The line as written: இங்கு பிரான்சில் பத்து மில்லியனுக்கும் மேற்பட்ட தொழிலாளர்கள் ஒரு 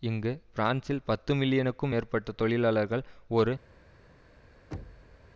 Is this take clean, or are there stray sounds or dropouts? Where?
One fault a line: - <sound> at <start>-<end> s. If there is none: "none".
- thud at 4.7-5.3 s